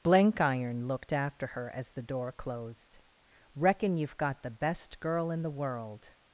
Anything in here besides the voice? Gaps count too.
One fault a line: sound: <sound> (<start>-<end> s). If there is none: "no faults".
no faults